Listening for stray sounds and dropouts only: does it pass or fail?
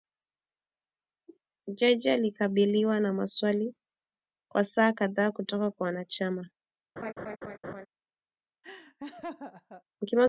fail